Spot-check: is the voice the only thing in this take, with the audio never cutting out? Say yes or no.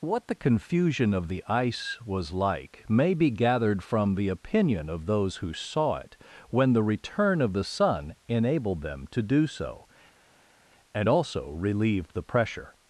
yes